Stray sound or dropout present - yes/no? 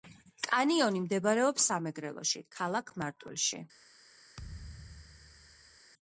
yes